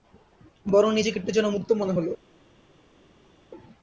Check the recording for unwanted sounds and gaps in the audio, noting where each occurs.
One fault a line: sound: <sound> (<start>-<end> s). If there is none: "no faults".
no faults